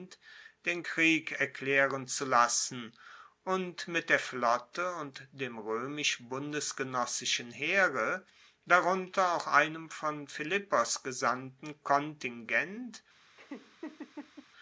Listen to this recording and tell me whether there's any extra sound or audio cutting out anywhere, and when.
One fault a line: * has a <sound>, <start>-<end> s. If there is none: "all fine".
* has a laugh, 13.4-14.5 s